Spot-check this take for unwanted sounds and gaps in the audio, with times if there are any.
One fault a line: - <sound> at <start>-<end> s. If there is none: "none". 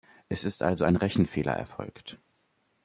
none